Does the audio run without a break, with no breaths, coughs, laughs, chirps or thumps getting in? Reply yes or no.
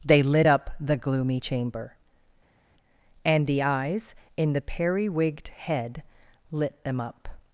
yes